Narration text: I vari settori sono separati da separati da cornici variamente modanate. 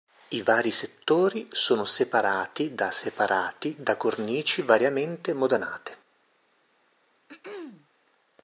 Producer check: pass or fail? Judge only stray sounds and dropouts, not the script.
fail